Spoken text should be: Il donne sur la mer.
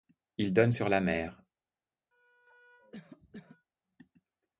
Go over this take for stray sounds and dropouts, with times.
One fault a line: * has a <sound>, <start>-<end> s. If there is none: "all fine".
* has a cough, 2.1-3.7 s